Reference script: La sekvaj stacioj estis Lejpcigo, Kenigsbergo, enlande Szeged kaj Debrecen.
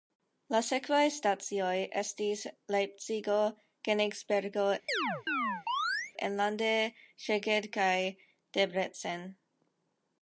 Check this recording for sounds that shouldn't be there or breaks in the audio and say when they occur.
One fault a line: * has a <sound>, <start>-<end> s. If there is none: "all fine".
* has a chirp, 4.9-6.1 s